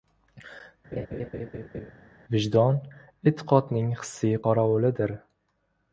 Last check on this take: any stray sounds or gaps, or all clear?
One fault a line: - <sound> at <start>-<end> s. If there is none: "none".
- laugh at 0.9-1.9 s